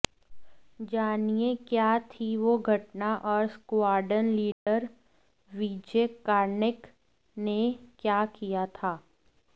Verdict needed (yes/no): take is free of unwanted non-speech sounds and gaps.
no